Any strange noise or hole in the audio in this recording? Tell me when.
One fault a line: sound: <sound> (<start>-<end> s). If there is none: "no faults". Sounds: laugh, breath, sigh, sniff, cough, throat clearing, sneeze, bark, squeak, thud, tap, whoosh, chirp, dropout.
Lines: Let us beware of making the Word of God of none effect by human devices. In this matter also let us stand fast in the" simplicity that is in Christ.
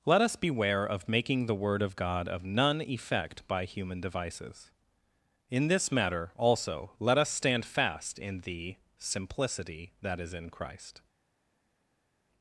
no faults